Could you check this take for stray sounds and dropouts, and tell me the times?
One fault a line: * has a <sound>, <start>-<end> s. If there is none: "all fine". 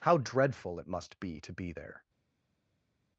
all fine